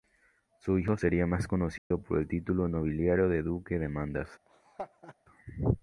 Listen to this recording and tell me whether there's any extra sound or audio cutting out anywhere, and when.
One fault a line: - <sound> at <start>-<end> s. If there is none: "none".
- dropout at 1.8-1.9 s
- laugh at 4.5-5.2 s